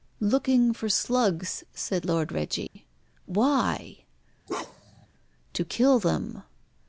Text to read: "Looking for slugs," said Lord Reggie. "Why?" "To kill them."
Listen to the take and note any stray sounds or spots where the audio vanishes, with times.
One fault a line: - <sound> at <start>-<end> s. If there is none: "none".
- dropout at 2.7-2.8 s
- bark at 4.5-5.1 s